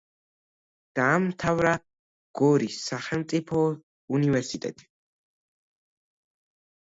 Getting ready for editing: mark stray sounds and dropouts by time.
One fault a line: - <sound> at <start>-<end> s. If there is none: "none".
none